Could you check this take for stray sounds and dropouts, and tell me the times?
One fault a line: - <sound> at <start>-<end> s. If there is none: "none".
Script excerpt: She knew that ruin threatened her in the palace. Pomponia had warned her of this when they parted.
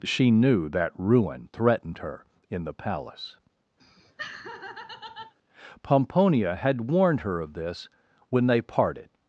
- laugh at 3.8-5.3 s